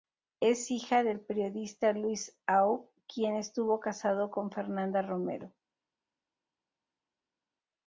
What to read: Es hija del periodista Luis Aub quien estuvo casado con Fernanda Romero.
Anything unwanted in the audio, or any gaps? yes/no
no